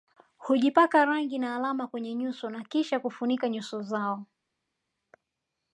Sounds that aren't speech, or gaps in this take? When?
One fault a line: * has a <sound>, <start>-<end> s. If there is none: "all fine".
all fine